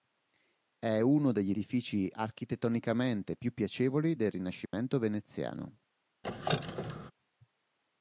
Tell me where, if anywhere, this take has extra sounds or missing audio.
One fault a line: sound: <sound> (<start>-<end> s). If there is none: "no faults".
sound: dropout (4.7-4.7 s)
sound: squeak (6.2-7.1 s)